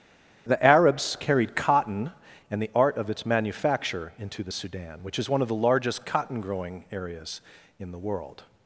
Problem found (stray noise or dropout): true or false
false